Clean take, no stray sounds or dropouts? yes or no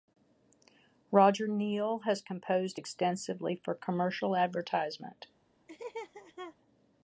no